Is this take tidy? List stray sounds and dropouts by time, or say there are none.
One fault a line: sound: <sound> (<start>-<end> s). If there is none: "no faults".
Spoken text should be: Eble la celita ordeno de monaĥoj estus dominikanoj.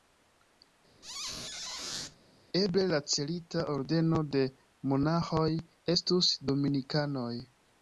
sound: squeak (1.0-2.2 s)